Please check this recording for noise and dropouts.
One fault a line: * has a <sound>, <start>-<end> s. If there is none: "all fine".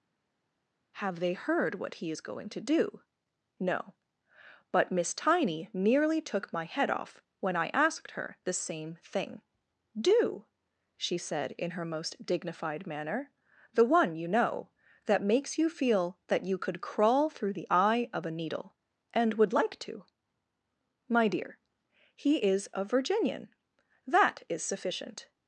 all fine